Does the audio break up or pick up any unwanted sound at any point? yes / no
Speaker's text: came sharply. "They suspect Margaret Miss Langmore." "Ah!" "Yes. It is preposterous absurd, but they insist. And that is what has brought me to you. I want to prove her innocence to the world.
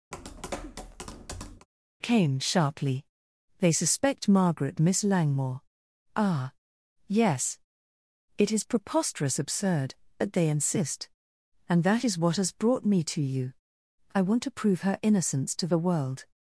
yes